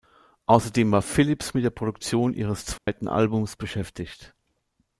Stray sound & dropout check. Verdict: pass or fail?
fail